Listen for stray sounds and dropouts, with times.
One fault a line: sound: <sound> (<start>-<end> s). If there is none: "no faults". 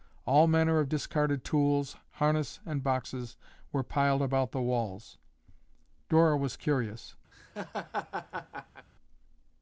sound: laugh (7.3-8.9 s)